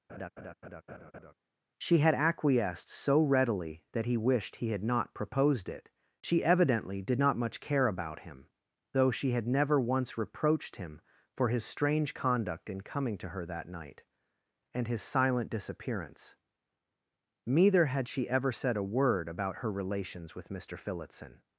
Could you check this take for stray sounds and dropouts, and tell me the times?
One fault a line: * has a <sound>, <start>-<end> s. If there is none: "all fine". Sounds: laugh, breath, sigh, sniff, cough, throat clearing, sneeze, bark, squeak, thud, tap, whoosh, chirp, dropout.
* has a laugh, 0.1-1.3 s